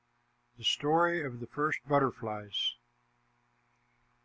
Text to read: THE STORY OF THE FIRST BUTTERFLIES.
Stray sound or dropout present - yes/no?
no